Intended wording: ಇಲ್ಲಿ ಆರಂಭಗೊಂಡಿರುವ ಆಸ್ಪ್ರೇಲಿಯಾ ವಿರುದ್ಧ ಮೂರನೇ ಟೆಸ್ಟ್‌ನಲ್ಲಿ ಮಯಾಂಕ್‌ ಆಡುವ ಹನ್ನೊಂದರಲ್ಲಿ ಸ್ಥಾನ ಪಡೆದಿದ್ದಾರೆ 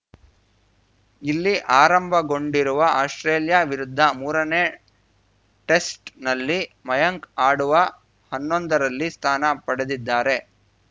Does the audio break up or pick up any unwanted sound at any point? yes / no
no